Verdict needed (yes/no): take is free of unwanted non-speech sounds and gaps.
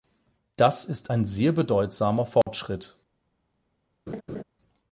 no